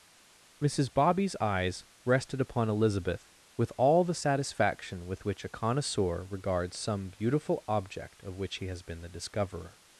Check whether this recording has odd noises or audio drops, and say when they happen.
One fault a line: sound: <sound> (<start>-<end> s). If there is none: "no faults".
no faults